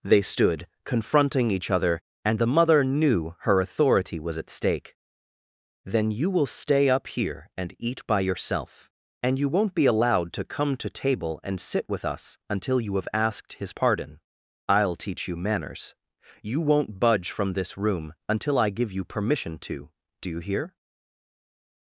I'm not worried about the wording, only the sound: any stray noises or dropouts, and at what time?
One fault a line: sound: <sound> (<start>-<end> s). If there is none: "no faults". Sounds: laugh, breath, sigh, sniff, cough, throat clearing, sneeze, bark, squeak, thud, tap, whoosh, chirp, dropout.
no faults